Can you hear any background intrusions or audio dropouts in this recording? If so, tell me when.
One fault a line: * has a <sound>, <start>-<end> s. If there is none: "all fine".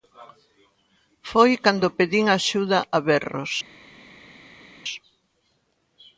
all fine